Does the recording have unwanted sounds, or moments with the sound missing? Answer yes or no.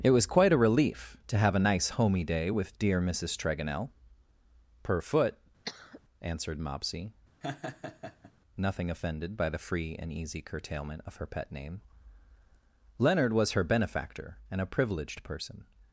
yes